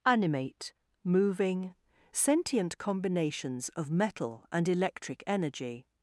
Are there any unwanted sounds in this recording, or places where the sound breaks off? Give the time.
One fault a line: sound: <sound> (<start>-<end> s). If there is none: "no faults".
no faults